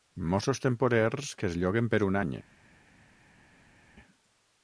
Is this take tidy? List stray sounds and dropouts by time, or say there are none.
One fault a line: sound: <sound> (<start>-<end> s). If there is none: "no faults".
no faults